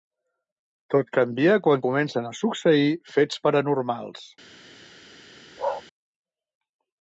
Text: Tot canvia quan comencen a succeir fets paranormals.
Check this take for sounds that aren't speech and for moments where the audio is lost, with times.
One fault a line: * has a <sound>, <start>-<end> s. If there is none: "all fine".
* has a bark, 5.6-5.8 s